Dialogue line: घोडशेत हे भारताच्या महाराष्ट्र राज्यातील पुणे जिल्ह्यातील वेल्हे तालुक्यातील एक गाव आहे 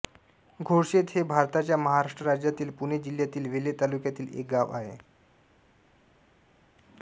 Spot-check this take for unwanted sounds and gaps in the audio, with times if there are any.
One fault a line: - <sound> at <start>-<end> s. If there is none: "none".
none